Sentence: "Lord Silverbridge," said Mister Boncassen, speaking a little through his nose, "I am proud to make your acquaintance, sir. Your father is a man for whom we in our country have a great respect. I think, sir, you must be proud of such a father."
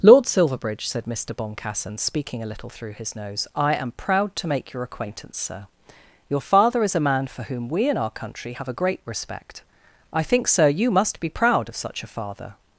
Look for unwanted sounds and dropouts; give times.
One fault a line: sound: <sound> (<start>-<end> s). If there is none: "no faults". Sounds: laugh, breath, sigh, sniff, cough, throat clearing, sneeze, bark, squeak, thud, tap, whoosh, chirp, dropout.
no faults